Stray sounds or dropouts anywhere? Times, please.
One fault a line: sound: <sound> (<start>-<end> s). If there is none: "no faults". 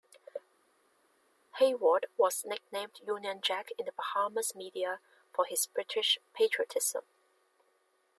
no faults